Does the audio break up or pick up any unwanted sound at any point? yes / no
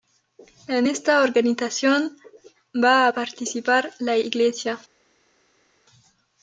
no